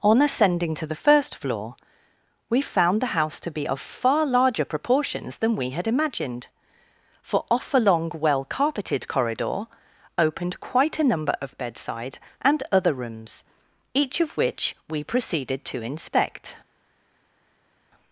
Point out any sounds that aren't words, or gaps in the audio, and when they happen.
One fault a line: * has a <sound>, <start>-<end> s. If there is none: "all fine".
all fine